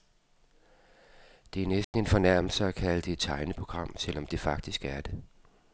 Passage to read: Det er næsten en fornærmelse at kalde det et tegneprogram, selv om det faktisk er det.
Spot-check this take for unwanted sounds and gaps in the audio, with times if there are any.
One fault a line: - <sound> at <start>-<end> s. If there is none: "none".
- dropout at 1.8-1.9 s